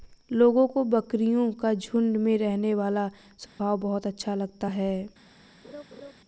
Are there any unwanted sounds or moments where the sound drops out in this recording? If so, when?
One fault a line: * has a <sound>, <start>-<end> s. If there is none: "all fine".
* has a dropout, 3.5-3.6 s
* has a laugh, 5.6-6.1 s